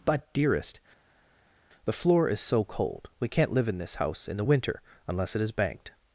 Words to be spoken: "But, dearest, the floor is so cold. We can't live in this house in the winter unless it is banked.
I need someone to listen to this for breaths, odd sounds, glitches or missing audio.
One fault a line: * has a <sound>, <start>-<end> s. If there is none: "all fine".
all fine